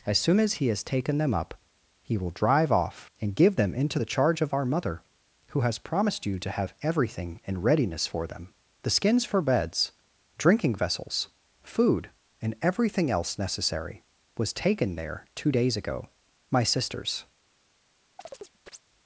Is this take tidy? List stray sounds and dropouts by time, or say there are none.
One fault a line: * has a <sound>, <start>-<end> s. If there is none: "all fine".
* has a chirp, 18.2-18.8 s